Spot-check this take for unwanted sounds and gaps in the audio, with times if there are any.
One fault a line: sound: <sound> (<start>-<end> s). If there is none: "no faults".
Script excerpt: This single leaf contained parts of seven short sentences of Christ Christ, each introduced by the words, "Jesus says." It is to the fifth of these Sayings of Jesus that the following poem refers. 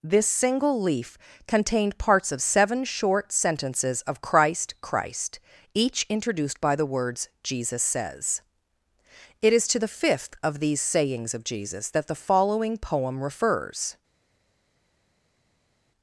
no faults